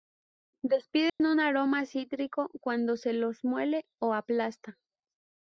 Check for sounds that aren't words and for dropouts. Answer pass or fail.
fail